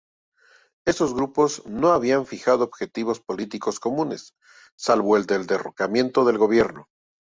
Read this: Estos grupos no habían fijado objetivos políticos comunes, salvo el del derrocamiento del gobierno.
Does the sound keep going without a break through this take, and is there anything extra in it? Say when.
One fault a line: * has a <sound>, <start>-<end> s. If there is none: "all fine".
all fine